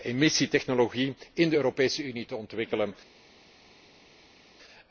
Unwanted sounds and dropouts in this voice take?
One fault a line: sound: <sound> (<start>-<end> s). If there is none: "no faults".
no faults